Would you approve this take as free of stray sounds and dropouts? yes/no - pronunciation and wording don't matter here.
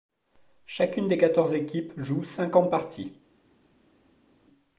yes